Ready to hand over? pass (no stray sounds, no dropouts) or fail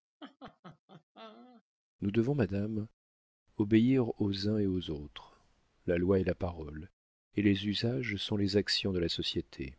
fail